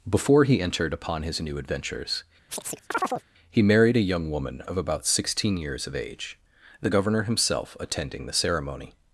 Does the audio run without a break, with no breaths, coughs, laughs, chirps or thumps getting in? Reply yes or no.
no